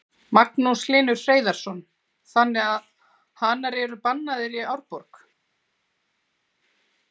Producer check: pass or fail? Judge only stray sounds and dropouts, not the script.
pass